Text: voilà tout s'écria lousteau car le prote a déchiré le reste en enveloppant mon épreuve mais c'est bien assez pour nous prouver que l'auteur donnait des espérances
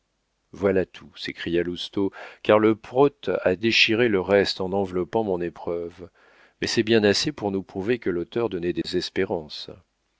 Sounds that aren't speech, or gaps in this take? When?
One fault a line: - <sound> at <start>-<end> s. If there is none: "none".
- dropout at 8.8-8.8 s